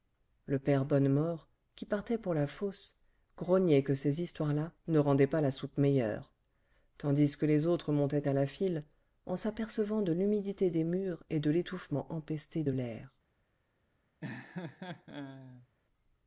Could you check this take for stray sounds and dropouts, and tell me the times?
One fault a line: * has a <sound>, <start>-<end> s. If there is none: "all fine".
* has a laugh, 14.2-15.7 s